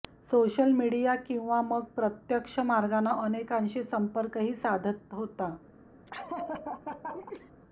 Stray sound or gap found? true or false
true